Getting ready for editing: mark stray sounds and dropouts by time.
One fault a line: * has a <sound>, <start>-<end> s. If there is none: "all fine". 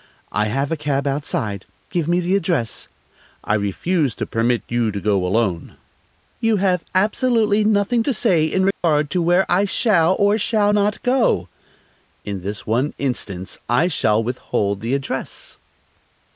* has a dropout, 8.7-8.8 s